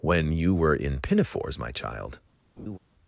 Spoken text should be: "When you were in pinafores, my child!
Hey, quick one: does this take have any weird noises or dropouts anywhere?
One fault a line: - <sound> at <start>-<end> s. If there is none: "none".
- laugh at 2.6-2.8 s